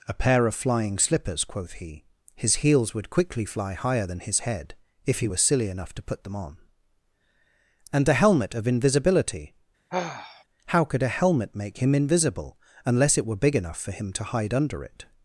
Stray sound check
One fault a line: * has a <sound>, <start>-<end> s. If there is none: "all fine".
* has a sigh, 9.9-10.4 s